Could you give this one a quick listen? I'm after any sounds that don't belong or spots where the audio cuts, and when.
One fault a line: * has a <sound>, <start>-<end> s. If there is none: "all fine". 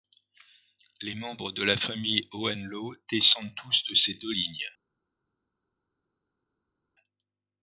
all fine